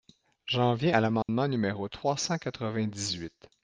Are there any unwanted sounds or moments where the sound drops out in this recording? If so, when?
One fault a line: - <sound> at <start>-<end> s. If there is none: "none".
- dropout at 1.2-1.3 s